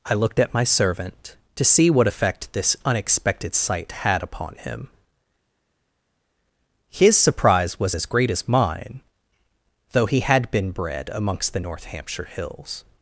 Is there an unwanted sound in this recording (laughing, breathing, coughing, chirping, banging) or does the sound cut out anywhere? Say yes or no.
no